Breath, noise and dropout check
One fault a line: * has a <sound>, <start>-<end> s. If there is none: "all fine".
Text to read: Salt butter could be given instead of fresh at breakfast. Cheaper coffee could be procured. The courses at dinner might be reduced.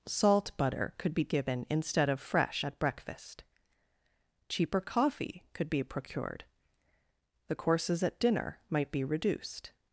all fine